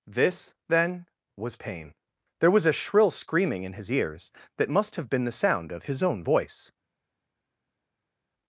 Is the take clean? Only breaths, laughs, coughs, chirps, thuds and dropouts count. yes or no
yes